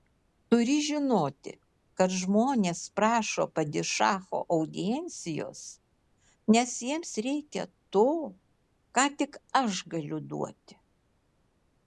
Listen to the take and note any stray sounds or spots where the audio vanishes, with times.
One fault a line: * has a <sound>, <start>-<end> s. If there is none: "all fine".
all fine